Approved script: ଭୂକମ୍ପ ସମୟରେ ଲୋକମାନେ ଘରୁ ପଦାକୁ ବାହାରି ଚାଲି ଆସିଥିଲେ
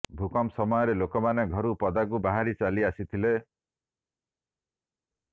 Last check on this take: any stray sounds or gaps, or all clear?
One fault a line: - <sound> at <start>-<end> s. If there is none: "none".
none